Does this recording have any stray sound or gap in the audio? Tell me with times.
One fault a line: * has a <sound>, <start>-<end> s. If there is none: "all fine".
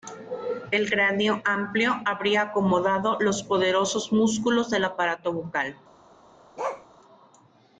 * has a bark, 6.6-6.9 s